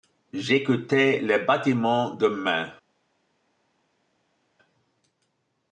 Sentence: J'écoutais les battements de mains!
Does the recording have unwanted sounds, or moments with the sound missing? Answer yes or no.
no